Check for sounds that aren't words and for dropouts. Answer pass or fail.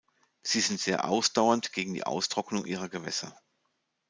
pass